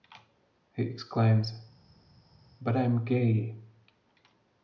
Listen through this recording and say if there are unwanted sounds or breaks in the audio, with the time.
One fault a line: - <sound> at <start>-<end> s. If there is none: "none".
none